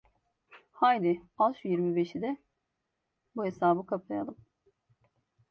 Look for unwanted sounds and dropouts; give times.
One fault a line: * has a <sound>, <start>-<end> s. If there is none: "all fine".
all fine